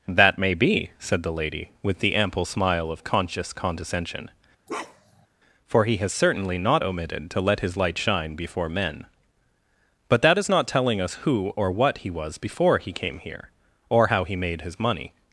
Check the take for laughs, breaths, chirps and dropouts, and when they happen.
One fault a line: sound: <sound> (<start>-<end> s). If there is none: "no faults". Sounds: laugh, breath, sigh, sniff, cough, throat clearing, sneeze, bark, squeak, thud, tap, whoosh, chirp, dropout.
sound: bark (4.7-5.3 s)